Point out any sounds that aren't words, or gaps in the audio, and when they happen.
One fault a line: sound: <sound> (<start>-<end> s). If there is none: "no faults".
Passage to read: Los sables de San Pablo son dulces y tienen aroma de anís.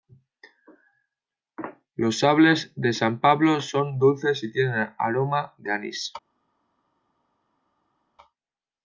no faults